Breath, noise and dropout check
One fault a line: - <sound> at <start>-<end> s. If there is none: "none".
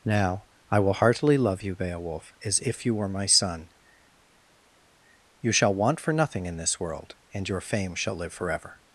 none